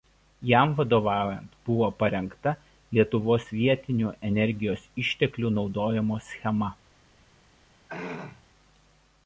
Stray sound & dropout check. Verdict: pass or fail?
fail